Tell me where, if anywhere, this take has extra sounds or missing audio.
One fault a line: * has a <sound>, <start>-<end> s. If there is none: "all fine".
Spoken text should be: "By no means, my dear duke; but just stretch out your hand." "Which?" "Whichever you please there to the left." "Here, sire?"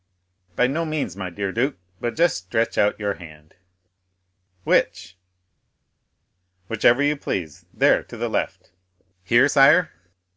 all fine